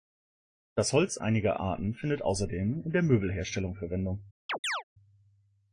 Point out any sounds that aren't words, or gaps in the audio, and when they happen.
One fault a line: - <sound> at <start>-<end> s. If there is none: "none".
- chirp at 4.5-4.8 s